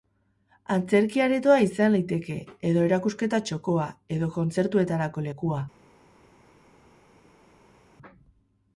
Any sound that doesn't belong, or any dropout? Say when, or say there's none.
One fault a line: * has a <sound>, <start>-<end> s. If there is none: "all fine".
all fine